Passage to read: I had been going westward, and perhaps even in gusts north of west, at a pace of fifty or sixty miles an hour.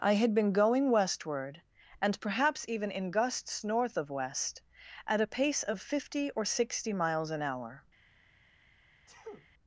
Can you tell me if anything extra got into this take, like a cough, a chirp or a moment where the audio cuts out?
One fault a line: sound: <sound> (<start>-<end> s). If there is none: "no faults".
sound: sneeze (9.1-9.5 s)